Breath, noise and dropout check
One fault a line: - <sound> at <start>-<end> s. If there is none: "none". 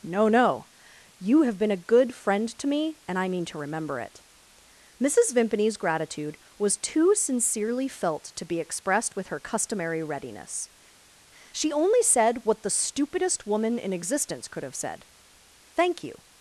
none